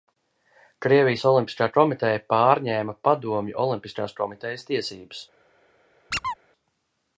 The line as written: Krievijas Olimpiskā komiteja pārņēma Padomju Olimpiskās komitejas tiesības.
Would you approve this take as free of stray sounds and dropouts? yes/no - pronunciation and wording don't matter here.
no